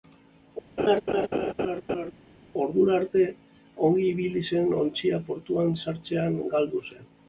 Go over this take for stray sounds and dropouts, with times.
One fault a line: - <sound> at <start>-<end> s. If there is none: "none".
- laugh at 0.8-2.1 s